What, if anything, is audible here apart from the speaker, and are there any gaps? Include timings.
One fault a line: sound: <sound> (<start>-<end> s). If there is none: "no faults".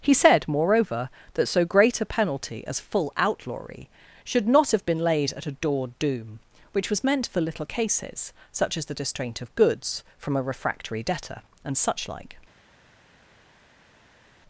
no faults